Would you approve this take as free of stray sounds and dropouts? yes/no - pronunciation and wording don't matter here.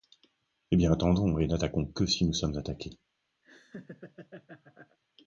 no